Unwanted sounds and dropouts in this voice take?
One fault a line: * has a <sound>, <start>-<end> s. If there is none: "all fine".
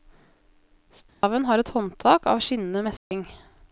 * has a dropout, 1.1-1.2 s
* has a dropout, 3.0-3.1 s